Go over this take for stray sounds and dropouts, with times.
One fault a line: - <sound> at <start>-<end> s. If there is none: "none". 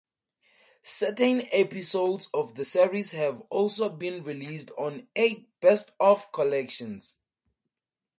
none